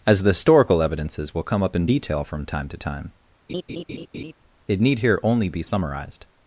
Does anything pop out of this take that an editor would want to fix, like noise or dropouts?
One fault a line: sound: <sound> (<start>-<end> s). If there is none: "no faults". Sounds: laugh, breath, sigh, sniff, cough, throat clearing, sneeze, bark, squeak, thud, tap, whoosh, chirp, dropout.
sound: laugh (3.5-4.3 s)